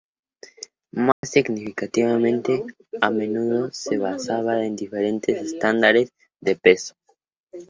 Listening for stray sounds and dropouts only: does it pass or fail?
fail